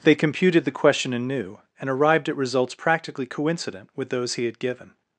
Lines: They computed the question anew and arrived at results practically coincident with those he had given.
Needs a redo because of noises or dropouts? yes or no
no